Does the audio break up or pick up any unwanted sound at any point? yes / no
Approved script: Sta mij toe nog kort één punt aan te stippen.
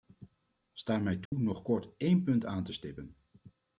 yes